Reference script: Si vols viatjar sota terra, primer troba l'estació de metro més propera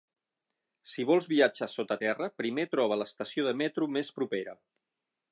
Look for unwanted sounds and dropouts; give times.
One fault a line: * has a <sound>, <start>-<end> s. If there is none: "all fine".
all fine